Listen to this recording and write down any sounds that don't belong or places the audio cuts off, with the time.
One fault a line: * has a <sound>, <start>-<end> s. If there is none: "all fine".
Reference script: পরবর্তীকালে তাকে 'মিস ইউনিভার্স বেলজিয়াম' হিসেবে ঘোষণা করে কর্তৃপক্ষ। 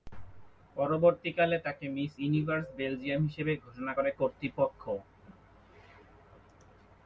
all fine